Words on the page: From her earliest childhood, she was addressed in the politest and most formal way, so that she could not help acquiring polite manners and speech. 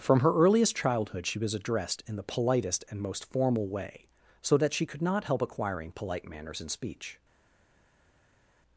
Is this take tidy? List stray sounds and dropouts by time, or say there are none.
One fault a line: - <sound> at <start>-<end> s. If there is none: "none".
none